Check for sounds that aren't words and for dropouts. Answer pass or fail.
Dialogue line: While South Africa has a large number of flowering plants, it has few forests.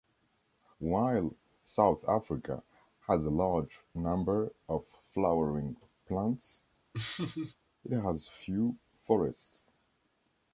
fail